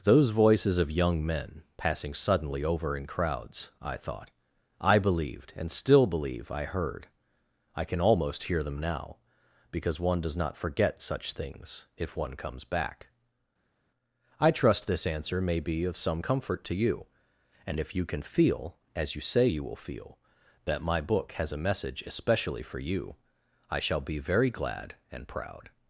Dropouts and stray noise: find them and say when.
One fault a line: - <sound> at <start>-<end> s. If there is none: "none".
none